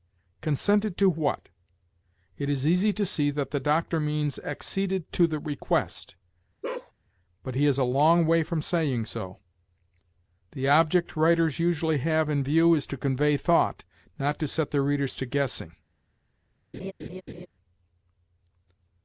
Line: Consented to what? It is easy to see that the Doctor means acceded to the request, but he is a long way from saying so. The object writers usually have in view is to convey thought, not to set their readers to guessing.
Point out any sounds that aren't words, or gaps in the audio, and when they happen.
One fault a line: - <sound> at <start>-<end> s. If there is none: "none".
- bark at 6.6-6.9 s
- laugh at 16.7-17.5 s